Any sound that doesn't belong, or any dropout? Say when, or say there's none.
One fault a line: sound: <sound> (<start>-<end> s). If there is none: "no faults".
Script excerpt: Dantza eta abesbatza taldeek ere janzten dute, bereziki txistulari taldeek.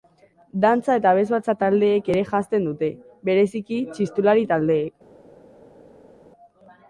no faults